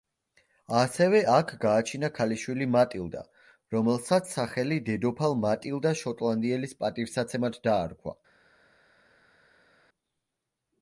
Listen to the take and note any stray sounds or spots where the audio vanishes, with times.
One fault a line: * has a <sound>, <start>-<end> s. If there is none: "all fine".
all fine